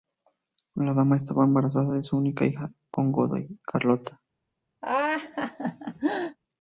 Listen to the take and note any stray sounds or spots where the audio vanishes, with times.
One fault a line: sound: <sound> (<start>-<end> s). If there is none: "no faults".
sound: laugh (4.8-6.4 s)